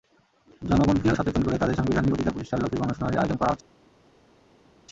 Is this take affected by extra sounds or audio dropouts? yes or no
no